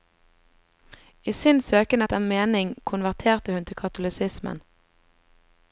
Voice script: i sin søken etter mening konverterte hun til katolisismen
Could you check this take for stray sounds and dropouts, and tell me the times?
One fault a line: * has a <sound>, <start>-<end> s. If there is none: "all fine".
all fine